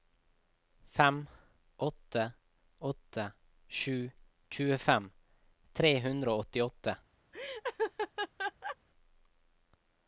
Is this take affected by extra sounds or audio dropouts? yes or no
yes